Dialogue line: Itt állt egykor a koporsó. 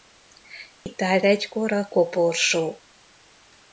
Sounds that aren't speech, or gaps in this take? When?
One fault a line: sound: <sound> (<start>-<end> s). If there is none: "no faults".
sound: dropout (0.7-0.9 s)